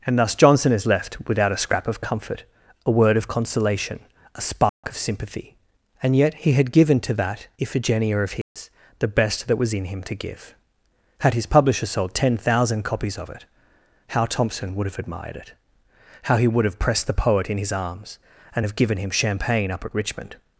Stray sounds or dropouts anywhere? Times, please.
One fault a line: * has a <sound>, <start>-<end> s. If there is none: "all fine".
* has a dropout, 4.7-4.8 s
* has a dropout, 8.4-8.6 s